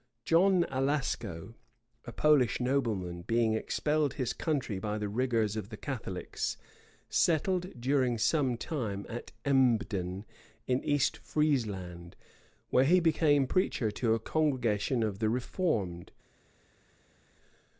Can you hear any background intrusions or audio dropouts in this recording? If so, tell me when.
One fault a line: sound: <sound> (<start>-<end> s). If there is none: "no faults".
no faults